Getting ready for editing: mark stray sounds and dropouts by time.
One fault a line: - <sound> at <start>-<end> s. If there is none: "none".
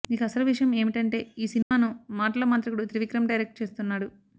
- dropout at 1.6-1.7 s